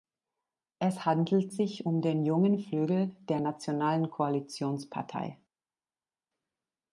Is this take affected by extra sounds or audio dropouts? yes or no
no